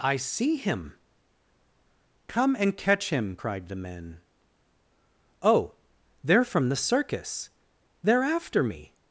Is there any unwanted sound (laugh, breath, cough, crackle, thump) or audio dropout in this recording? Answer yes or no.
no